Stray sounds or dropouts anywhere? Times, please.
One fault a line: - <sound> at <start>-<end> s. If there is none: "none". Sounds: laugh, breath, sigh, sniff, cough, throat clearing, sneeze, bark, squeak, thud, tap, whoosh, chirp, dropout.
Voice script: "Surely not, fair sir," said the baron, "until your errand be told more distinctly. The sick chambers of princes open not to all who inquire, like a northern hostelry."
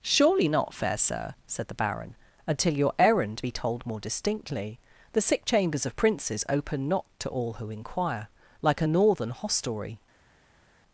none